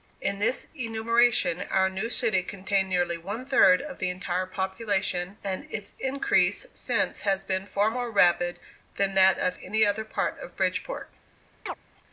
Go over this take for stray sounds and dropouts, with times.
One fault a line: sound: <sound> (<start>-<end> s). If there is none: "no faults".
sound: chirp (11.7-11.7 s)